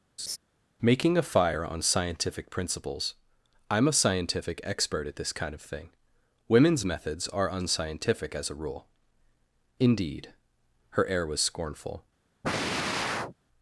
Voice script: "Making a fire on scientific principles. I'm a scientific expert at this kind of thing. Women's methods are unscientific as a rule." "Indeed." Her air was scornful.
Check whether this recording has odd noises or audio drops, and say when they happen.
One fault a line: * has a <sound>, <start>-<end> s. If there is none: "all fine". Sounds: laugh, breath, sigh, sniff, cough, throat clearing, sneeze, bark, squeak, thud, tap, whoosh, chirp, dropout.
* has a laugh, 0.2-0.4 s
* has a sigh, 12.4-13.3 s